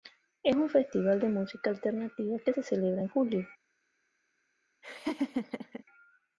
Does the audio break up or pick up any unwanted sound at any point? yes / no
yes